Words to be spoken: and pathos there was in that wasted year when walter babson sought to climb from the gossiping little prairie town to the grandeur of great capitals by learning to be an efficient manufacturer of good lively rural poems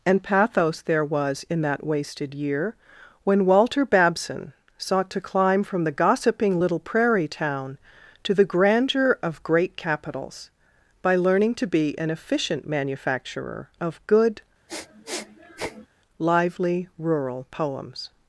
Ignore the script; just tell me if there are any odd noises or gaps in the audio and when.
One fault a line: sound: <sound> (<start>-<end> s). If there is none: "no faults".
sound: sniff (14.7-15.9 s)